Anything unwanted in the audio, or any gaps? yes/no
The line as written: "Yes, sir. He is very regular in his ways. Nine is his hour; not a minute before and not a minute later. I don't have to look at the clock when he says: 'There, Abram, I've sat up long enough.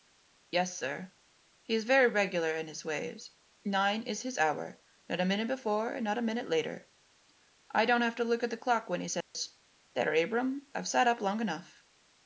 yes